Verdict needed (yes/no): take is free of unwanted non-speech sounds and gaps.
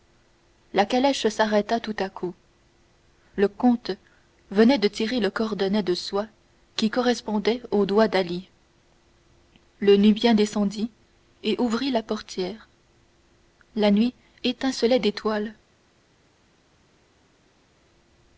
yes